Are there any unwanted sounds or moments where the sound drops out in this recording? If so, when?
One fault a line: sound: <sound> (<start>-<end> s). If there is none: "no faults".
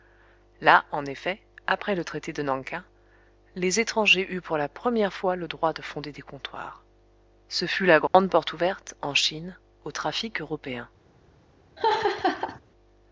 sound: dropout (8.1-8.1 s)
sound: laugh (11.8-12.6 s)